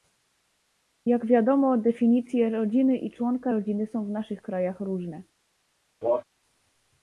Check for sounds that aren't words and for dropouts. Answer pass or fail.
fail